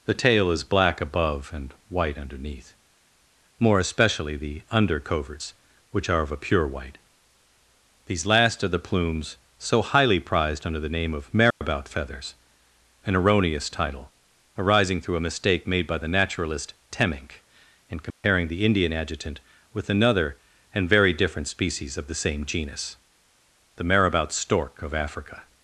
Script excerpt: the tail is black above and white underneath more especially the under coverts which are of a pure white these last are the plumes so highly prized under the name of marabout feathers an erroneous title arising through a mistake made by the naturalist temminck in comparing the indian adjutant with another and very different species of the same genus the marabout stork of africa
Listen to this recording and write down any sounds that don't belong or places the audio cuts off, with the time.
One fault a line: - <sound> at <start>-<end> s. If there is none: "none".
- dropout at 11.5-11.6 s
- dropout at 18.1-18.2 s